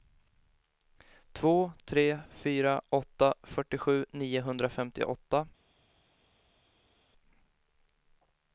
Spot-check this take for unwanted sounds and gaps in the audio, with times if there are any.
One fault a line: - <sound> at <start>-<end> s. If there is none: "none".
none